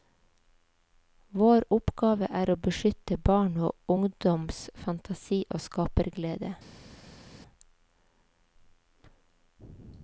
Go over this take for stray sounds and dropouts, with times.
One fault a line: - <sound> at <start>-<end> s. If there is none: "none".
none